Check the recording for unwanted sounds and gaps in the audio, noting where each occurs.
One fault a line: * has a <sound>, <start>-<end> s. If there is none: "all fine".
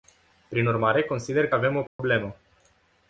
* has a dropout, 1.9-2.0 s